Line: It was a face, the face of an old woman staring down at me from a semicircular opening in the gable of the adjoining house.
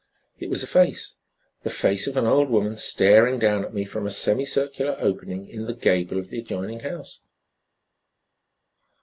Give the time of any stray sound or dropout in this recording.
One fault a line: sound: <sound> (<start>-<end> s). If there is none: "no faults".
no faults